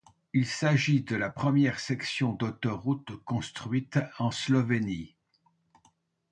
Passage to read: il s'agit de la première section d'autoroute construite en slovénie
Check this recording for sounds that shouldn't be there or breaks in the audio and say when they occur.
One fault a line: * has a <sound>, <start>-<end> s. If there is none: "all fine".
all fine